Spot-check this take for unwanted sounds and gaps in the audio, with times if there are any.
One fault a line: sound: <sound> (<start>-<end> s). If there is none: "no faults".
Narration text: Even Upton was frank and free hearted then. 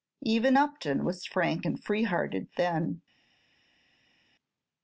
no faults